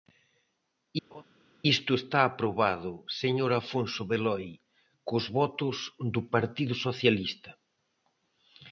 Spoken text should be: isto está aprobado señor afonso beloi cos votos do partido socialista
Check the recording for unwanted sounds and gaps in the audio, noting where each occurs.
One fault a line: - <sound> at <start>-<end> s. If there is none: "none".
- laugh at 1.1-1.2 s